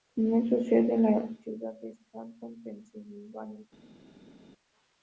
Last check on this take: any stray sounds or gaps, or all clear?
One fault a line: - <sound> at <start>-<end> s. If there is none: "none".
none